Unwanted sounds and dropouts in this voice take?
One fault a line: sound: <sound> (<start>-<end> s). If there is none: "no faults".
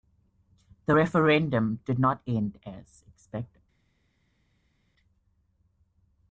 no faults